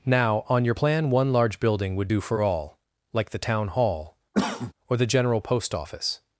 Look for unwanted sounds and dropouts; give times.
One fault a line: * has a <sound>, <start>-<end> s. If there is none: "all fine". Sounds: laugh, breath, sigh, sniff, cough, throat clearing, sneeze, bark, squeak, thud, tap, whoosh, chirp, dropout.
* has a cough, 4.3-4.7 s